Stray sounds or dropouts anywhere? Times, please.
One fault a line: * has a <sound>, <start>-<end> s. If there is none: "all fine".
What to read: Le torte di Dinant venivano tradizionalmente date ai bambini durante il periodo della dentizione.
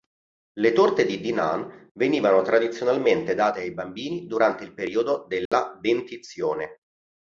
* has a dropout, 5.5-5.5 s